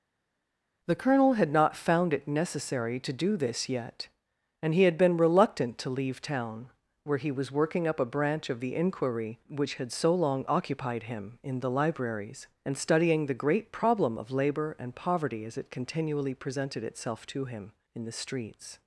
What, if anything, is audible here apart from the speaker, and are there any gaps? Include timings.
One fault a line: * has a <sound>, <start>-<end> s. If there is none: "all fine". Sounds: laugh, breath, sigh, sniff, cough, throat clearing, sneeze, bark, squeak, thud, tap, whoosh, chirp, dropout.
all fine